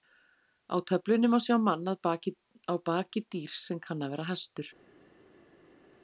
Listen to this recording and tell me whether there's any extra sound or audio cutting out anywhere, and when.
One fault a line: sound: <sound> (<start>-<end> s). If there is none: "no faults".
no faults